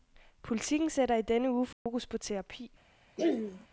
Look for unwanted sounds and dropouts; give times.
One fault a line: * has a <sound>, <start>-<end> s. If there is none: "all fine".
* has a dropout, 1.7-1.9 s
* has a throat clearing, 3.2-3.7 s